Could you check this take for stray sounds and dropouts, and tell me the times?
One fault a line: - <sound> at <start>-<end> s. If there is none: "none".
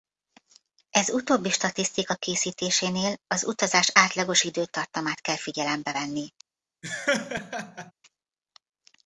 - laugh at 6.8-7.9 s